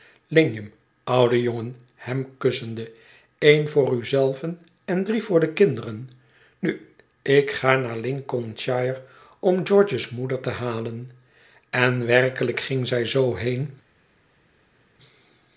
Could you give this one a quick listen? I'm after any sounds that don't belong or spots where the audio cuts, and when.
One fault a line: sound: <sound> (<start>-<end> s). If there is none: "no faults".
no faults